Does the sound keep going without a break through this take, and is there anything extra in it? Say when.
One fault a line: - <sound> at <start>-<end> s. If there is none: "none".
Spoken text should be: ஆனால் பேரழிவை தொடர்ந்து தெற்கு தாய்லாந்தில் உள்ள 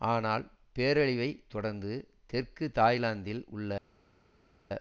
none